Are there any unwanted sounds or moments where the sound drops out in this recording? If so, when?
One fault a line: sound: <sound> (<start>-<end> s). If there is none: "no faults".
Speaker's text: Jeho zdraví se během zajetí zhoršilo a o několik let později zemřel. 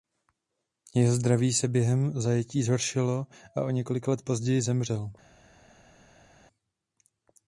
no faults